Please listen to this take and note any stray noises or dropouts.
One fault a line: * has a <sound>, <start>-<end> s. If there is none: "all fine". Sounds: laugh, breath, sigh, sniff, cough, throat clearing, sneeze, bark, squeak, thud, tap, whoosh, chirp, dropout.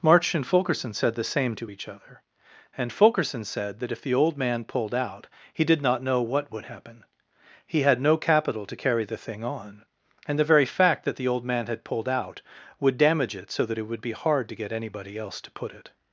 all fine